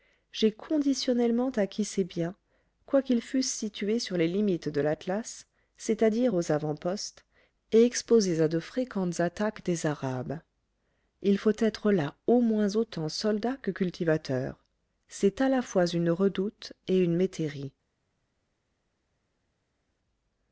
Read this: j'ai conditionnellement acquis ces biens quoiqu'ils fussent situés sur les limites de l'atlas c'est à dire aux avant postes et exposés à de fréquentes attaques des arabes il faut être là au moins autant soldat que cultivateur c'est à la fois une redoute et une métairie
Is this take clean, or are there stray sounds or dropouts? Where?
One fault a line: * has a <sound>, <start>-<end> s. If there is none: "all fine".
all fine